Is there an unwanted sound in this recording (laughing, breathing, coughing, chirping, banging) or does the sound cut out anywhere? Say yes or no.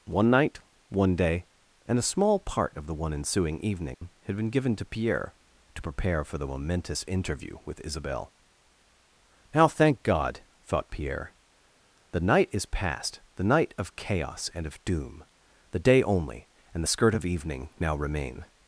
yes